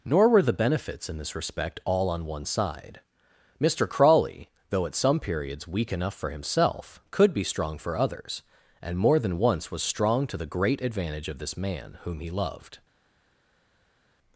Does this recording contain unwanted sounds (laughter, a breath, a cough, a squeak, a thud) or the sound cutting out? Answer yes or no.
no